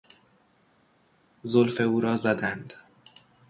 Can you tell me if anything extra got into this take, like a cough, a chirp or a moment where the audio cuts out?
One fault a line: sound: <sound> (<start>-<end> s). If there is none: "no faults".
no faults